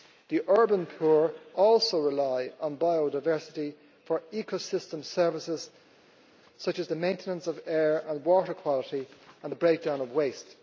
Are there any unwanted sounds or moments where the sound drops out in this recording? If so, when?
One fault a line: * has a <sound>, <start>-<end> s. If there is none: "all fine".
all fine